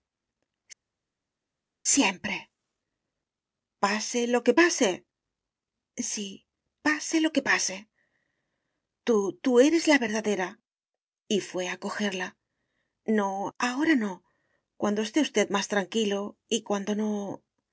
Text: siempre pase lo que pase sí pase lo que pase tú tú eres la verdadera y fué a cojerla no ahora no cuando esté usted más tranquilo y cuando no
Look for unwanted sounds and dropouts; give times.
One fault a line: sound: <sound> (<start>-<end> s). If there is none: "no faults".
no faults